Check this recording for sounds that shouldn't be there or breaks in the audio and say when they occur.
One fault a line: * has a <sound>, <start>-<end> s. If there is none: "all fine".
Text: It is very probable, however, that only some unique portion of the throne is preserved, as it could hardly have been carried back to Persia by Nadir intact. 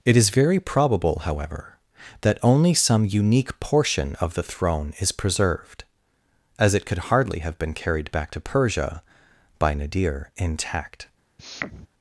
* has a sniff, 11.4-11.9 s